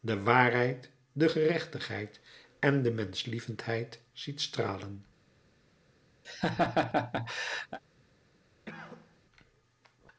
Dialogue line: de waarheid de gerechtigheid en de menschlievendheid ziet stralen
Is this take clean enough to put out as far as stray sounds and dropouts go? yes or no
no